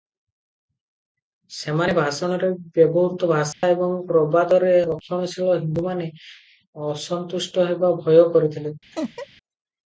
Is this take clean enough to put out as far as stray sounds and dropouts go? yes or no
no